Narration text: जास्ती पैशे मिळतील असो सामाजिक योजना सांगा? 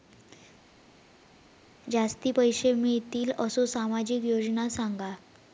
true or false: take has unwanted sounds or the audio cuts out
false